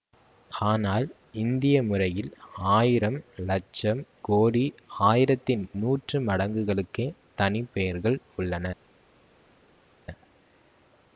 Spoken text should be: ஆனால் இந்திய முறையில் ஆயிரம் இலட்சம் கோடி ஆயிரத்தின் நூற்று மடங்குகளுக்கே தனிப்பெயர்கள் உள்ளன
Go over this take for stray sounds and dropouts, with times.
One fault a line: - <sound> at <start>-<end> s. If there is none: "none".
none